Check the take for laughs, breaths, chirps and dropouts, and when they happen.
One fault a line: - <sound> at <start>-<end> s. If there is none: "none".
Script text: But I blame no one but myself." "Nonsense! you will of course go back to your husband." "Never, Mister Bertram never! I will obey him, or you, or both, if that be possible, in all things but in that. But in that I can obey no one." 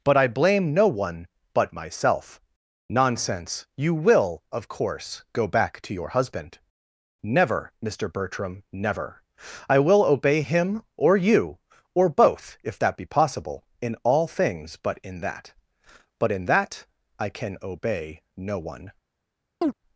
- chirp at 19.6-19.7 s